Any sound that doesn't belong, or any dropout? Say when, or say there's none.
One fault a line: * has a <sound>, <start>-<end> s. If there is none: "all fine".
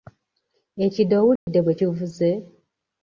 * has a dropout, 1.4-1.5 s